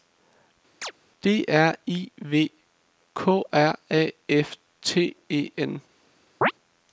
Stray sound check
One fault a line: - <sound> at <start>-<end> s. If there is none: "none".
- chirp at 0.8-0.9 s
- chirp at 6.4-6.5 s